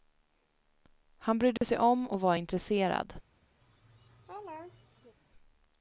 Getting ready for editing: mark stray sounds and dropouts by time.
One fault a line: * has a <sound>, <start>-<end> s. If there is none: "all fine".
* has a dropout, 1.6-1.6 s
* has a laugh, 3.6-5.2 s